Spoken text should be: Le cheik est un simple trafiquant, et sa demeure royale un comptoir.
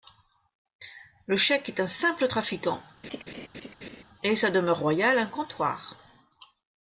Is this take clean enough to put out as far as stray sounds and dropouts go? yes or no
no